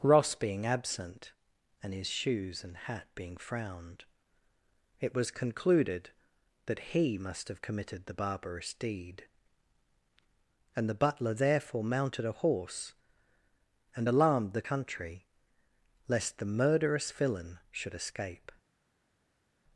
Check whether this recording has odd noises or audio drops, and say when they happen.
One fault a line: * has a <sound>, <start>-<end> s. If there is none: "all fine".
all fine